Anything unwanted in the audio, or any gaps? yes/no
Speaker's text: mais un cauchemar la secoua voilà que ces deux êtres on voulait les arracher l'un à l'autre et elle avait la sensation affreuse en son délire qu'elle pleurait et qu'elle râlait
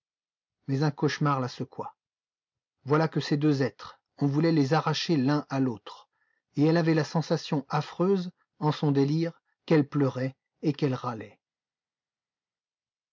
no